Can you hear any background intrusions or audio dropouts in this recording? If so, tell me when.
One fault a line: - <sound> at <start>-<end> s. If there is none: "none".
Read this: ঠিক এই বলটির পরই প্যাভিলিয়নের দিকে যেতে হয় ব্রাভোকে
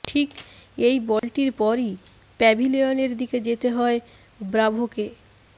- dropout at 1.2-1.2 s